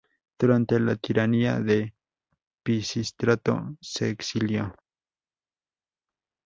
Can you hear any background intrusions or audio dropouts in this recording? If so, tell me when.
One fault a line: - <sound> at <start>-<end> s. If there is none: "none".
none